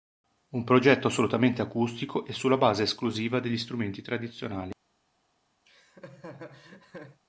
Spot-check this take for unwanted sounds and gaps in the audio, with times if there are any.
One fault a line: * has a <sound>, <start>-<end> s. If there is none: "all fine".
* has a laugh, 5.6-7.2 s